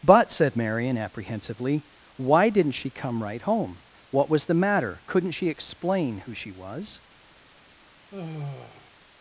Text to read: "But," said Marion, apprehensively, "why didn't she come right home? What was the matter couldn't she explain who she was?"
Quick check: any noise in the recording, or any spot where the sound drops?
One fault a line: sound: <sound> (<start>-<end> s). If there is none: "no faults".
sound: sigh (8.1-8.9 s)